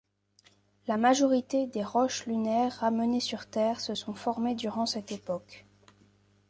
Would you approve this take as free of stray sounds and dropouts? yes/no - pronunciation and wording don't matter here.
yes